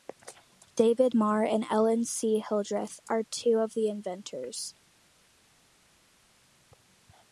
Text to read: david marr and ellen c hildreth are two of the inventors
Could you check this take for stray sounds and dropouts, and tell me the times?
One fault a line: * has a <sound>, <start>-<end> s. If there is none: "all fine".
all fine